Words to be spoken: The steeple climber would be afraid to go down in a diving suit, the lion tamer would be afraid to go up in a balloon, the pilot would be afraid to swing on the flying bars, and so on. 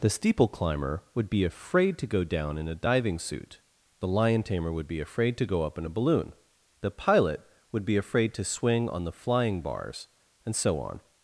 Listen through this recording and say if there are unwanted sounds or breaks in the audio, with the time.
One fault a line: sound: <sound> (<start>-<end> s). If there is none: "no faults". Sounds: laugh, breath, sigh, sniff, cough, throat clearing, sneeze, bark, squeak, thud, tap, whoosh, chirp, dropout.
no faults